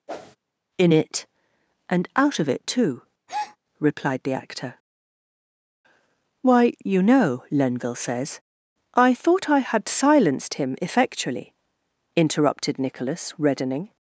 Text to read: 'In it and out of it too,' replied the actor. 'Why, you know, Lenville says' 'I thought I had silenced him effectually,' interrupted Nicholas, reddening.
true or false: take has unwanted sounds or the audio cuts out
true